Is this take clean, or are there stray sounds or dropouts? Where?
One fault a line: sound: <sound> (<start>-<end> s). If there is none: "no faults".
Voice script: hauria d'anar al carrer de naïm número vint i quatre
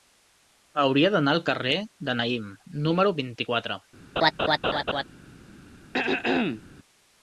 sound: laugh (4.2-5.0 s)
sound: throat clearing (5.9-6.6 s)